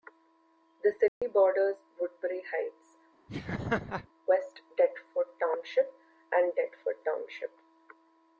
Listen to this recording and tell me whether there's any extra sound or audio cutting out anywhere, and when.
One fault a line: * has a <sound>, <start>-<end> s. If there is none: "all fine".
* has a dropout, 1.1-1.2 s
* has a laugh, 3.3-4.1 s